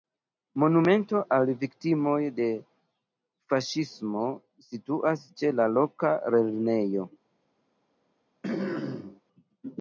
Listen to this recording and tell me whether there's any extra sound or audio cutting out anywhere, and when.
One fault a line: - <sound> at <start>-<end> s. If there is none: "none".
- throat clearing at 8.4-9.2 s